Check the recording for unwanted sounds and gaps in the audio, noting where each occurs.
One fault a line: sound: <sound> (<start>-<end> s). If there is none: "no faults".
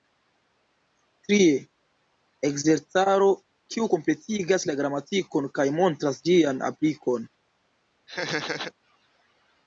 sound: laugh (8.1-8.7 s)